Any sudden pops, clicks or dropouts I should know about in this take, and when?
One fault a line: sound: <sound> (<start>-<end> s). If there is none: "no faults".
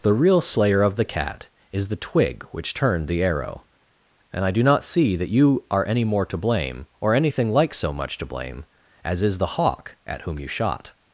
no faults